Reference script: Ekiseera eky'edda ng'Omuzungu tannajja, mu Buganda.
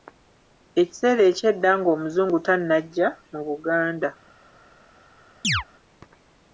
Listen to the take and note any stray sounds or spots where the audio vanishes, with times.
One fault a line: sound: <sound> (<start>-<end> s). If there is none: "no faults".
sound: chirp (5.4-5.6 s)